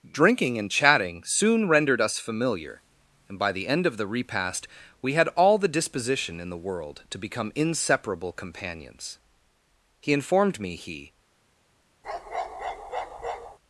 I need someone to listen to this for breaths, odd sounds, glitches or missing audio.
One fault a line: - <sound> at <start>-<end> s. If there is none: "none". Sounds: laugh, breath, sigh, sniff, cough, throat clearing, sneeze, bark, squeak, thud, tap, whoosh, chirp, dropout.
- bark at 12.0-13.6 s